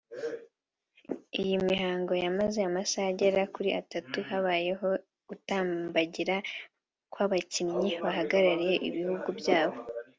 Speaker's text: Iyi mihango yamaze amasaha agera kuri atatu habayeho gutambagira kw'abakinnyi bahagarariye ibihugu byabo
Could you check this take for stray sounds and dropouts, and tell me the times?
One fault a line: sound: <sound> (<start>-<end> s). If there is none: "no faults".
no faults